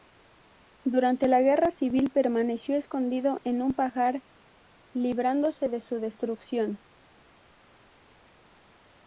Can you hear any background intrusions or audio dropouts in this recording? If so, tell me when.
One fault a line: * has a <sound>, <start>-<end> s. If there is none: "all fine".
all fine